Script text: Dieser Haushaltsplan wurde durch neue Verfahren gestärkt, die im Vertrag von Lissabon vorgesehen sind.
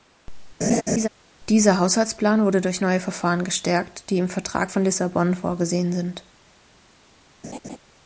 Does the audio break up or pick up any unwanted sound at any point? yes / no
yes